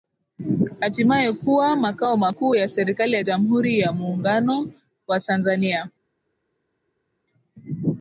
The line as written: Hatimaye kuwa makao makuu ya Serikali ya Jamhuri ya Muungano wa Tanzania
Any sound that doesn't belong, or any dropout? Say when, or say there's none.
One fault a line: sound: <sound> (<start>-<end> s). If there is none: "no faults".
no faults